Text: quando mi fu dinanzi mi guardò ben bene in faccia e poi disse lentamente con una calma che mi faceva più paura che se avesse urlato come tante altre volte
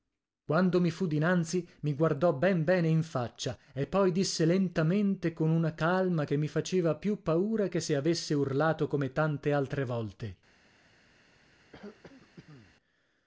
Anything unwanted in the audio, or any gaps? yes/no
yes